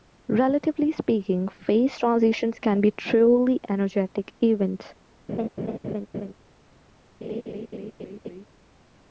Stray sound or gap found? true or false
true